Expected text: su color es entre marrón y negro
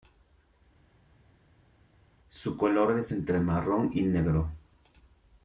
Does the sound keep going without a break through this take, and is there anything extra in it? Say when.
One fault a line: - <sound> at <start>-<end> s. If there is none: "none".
none